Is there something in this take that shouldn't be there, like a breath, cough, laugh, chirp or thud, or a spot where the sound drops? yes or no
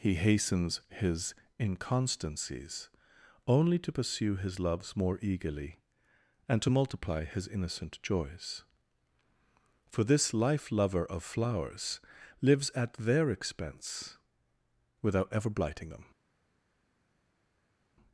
no